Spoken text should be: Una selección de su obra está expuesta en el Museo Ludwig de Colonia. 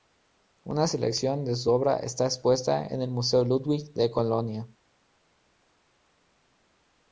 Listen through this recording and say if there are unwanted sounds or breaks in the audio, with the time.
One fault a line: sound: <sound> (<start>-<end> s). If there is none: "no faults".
no faults